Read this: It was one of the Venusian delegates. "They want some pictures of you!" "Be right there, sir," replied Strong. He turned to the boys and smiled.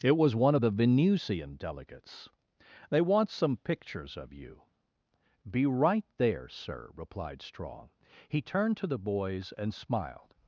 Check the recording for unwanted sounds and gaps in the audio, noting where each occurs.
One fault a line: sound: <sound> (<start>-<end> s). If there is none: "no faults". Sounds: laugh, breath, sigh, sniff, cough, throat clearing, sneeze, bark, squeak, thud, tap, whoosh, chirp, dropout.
no faults